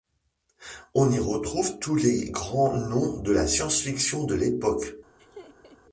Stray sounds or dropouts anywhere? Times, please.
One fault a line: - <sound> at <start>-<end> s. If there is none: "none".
- laugh at 5.2-5.8 s